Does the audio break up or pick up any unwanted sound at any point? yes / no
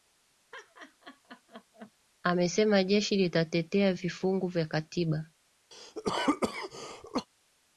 yes